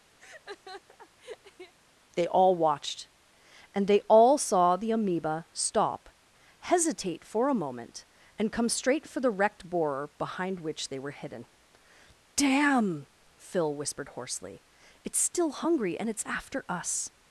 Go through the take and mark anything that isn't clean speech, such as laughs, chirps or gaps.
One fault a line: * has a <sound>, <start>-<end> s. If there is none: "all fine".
* has a laugh, 0.2-1.7 s